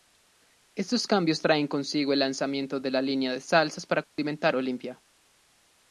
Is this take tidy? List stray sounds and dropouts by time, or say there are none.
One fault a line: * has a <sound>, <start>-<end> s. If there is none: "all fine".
* has a dropout, 4.0-4.2 s